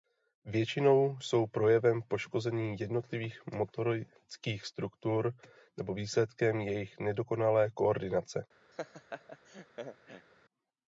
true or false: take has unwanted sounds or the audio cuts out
true